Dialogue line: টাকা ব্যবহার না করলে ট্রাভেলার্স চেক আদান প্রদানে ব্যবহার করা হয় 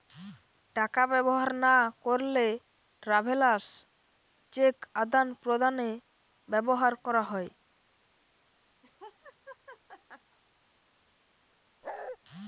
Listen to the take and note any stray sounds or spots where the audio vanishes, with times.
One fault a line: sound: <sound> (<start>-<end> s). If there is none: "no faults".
sound: laugh (8.8-10.4 s)
sound: bark (11.8-12.2 s)